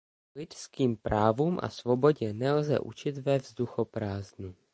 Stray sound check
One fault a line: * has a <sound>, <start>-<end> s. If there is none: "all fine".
all fine